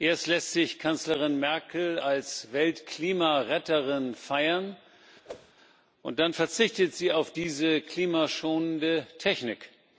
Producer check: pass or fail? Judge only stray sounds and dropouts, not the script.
fail